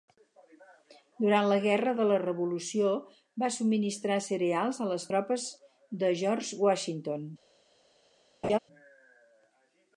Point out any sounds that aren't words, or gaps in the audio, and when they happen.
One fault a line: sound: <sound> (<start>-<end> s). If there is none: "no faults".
sound: laugh (8.4-8.6 s)